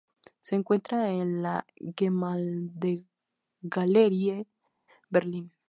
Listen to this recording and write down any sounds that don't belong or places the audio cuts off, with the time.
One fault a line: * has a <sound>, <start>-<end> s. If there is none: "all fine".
all fine